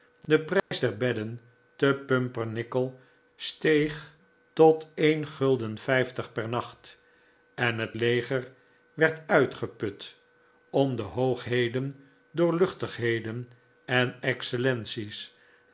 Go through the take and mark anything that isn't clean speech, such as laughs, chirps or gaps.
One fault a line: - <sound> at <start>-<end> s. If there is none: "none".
- dropout at 0.6-0.7 s